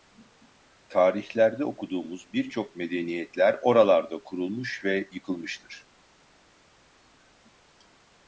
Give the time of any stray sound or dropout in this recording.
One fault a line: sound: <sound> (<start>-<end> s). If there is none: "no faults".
no faults